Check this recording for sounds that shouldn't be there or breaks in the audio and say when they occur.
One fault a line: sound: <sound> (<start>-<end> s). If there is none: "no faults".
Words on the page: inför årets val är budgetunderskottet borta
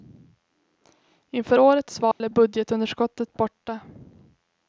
sound: dropout (2.1-2.2 s)